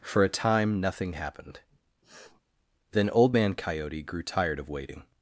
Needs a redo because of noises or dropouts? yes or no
yes